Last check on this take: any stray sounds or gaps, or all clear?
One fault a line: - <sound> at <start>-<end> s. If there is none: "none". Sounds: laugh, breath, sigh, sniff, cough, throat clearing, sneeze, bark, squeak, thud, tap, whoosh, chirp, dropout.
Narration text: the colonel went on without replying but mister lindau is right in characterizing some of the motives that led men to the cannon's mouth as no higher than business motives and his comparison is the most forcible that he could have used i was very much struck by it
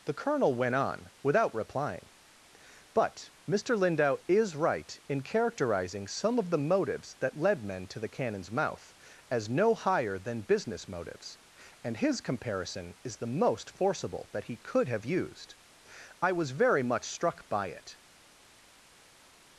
none